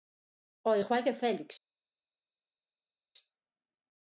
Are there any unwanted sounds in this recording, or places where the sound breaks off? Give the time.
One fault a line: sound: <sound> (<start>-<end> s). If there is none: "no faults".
no faults